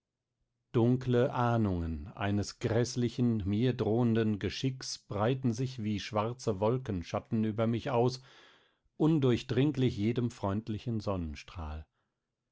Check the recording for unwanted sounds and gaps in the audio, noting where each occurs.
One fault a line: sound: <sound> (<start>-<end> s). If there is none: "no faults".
no faults